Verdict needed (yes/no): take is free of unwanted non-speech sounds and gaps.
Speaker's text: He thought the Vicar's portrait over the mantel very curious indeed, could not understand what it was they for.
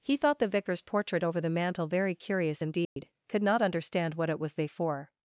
no